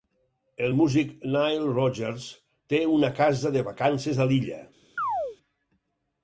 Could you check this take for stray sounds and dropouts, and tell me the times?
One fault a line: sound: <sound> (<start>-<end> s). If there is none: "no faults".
sound: chirp (5.0-5.4 s)